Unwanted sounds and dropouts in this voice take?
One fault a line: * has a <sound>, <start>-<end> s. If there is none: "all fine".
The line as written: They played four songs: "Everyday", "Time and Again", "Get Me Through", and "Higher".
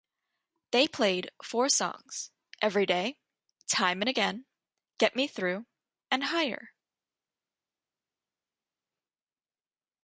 all fine